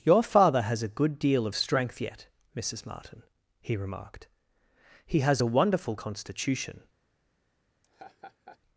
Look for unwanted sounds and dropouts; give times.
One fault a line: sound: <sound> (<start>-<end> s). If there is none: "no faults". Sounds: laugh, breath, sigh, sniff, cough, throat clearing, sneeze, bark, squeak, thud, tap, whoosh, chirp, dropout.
sound: laugh (7.8-8.6 s)